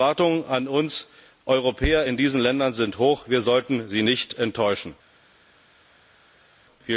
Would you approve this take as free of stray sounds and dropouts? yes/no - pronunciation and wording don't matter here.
yes